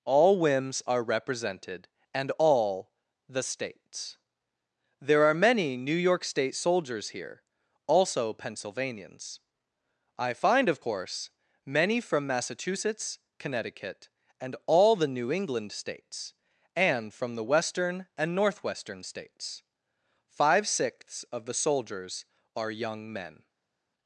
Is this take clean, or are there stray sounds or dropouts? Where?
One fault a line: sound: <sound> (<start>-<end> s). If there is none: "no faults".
no faults